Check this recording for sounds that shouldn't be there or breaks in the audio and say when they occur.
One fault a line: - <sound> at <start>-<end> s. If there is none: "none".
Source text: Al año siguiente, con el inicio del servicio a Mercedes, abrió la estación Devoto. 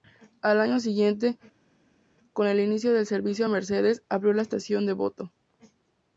none